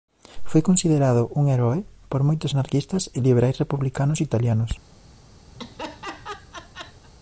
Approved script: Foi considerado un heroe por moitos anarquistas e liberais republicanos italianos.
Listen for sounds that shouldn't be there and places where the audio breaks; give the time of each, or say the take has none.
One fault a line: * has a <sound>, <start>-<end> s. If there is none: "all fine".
* has a laugh, 5.5-7.1 s